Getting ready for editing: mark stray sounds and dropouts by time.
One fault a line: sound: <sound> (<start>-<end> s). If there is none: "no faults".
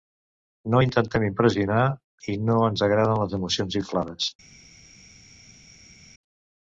no faults